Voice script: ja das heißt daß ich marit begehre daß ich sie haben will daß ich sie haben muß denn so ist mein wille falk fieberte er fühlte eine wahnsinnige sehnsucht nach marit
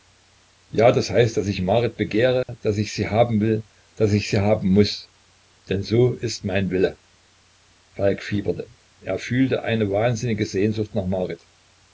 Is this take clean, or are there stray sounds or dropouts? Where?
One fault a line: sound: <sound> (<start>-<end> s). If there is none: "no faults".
sound: dropout (2.4-2.5 s)